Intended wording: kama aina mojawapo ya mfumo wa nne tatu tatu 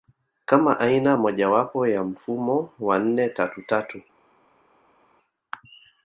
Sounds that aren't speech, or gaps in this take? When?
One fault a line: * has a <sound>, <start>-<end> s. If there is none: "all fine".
all fine